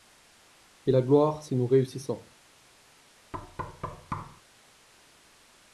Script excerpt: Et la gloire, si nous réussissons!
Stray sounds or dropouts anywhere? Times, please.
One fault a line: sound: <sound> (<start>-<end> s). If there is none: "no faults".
sound: thud (3.3-4.4 s)